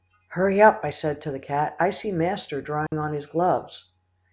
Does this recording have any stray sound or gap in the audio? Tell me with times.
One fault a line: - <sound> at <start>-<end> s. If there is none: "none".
- dropout at 2.9-2.9 s